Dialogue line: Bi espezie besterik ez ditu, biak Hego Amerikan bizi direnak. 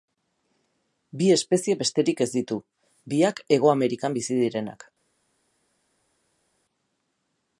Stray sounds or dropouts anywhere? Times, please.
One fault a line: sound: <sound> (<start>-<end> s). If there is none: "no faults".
no faults